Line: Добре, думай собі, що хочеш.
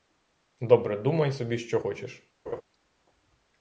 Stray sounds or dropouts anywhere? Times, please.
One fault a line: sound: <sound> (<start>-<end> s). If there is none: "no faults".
sound: laugh (2.5-2.6 s)